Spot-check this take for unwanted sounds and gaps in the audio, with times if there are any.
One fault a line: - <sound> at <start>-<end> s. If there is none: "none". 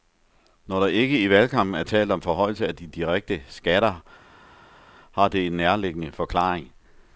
none